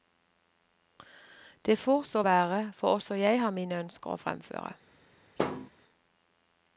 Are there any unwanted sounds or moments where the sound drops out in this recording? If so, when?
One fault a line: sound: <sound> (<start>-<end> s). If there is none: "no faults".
sound: thud (5.4-5.7 s)